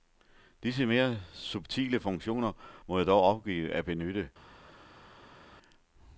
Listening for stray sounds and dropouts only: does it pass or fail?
pass